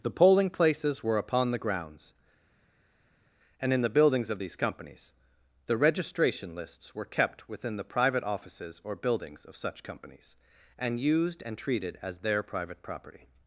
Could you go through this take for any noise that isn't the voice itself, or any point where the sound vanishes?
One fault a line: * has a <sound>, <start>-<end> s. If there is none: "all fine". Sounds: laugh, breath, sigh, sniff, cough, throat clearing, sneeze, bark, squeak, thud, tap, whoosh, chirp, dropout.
all fine